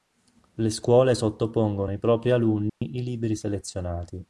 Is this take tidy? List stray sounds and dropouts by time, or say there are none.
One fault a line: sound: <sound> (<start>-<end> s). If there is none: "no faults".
sound: dropout (2.7-2.8 s)